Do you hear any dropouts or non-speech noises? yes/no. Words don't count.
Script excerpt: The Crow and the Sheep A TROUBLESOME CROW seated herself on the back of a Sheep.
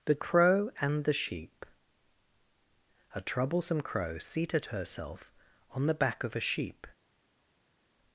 no